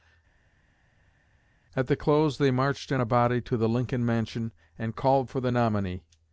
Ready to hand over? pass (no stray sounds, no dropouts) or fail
pass